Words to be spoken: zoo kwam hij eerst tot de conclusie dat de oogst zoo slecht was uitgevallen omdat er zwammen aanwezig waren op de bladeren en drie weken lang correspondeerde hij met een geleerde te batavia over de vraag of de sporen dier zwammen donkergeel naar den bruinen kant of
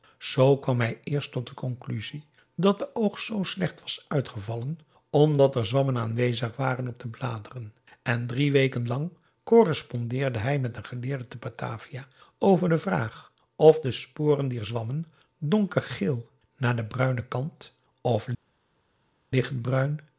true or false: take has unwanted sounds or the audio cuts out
false